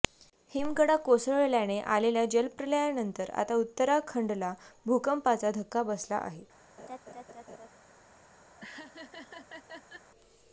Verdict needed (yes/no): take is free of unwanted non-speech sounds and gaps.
no